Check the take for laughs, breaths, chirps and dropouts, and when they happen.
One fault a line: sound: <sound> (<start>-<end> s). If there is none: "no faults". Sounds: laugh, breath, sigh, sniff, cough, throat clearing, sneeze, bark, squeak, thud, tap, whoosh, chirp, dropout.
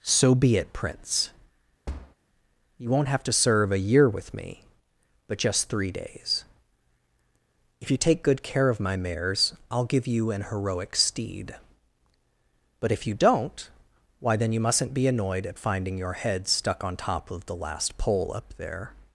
sound: thud (1.9-2.2 s)